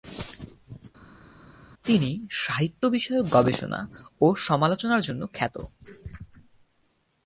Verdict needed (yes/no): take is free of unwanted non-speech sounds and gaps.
yes